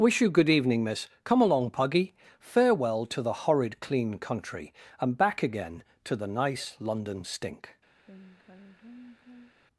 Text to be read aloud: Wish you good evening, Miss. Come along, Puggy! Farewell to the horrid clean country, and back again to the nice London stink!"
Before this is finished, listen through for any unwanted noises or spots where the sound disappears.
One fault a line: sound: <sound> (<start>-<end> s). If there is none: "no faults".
sound: sigh (8.0-9.5 s)